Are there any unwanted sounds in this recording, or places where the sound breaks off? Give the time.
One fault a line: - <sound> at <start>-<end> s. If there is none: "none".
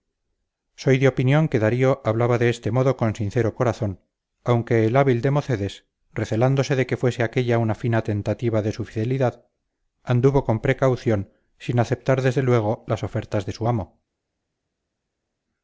none